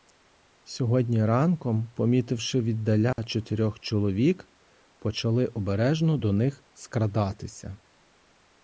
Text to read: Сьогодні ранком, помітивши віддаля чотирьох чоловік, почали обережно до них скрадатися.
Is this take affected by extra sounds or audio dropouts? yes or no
yes